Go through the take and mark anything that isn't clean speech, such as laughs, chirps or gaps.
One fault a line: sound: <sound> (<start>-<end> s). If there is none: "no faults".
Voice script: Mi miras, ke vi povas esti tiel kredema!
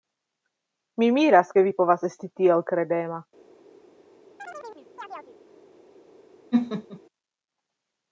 sound: chirp (4.4-5.4 s)
sound: laugh (6.5-7.0 s)